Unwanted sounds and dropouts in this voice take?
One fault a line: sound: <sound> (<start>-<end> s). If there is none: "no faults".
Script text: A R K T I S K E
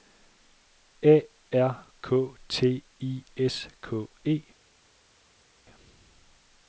no faults